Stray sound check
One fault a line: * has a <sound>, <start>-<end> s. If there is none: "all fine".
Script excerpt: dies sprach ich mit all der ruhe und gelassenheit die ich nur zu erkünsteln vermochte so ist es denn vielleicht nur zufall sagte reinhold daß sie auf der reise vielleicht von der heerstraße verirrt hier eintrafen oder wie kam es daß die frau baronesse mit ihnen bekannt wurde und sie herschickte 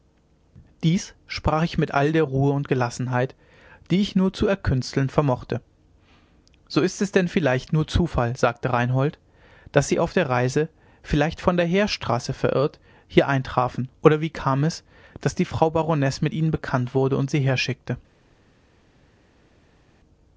all fine